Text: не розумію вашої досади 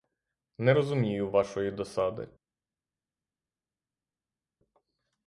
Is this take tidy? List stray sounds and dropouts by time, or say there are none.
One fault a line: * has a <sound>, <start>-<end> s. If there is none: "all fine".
all fine